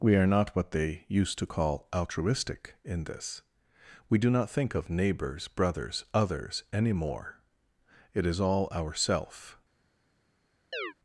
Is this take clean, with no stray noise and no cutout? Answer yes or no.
no